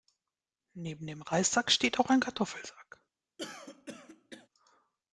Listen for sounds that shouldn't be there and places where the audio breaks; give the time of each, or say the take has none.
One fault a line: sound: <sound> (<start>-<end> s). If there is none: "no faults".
sound: throat clearing (3.4-4.5 s)